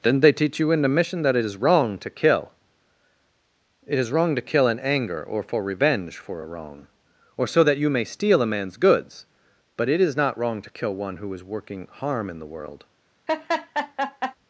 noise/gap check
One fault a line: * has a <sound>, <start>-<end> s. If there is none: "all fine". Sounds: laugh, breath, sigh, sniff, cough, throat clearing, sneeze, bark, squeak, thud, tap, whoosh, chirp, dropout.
* has a laugh, 13.3-14.3 s